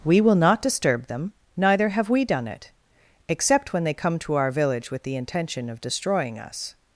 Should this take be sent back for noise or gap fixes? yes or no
no